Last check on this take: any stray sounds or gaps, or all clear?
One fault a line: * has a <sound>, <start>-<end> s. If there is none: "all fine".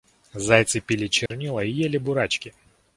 * has a dropout, 1.3-1.3 s